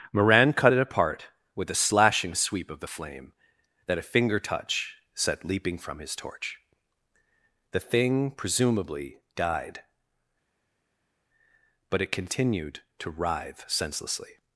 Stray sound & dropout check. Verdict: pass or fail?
pass